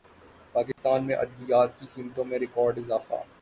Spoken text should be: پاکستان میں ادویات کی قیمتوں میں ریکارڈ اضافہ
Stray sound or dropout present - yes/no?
yes